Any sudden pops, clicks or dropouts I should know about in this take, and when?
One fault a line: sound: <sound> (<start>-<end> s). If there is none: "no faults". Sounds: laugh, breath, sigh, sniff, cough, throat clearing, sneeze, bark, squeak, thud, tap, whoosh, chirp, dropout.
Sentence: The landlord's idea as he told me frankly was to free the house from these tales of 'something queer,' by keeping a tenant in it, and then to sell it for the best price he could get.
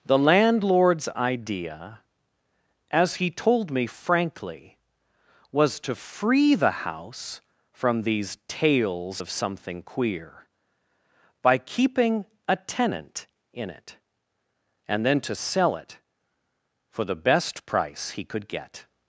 no faults